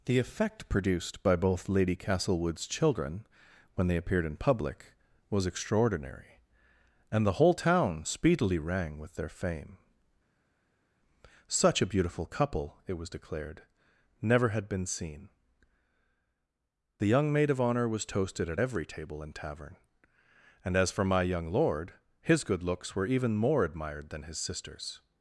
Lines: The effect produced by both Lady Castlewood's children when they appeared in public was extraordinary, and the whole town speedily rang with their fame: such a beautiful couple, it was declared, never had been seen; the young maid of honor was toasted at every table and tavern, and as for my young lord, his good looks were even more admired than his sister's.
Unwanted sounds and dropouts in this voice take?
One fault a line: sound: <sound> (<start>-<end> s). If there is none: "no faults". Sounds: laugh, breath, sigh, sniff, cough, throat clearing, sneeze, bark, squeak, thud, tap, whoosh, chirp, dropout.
no faults